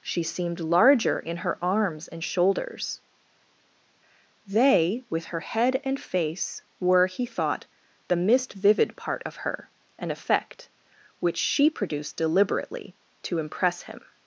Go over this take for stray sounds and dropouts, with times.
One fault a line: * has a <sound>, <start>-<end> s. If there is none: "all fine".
all fine